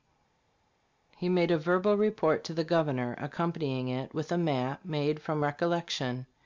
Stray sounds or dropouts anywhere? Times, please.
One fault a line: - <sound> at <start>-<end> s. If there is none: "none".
none